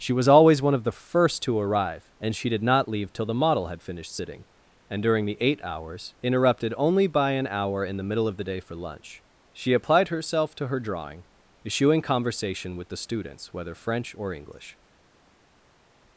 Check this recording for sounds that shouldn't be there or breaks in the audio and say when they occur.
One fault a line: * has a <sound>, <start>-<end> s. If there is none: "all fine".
all fine